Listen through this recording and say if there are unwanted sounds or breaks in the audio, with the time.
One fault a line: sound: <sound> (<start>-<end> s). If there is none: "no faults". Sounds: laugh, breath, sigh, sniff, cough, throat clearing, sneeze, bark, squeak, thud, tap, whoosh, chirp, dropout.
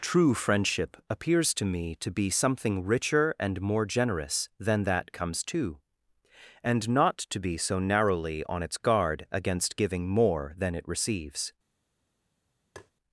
sound: tap (12.8-12.9 s)